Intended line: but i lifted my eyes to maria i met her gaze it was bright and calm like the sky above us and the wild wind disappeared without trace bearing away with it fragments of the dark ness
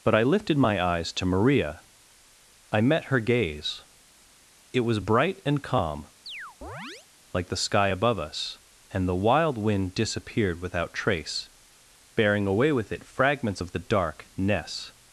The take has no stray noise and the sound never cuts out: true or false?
false